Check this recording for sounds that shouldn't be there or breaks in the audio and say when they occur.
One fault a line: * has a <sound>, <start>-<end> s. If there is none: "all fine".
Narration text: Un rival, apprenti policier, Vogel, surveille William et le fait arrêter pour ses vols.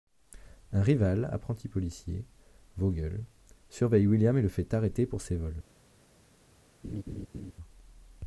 * has a laugh, 6.8-7.5 s